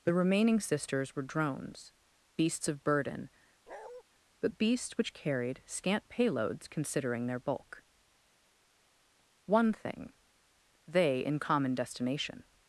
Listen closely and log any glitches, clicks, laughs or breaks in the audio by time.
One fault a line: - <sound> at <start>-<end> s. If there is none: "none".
- bark at 3.7-4.0 s